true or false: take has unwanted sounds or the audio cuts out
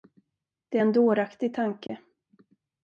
true